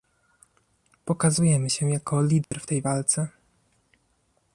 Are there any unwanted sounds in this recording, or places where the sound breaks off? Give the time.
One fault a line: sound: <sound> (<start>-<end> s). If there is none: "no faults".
sound: dropout (2.4-2.5 s)